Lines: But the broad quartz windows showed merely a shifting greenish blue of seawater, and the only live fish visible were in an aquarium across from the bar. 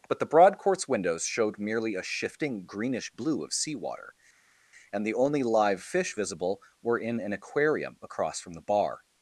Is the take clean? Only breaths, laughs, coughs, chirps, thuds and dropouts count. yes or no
yes